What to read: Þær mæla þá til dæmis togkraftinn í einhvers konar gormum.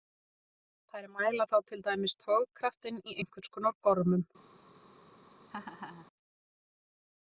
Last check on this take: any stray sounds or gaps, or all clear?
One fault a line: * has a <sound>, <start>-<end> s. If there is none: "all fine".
* has a laugh, 5.5-6.1 s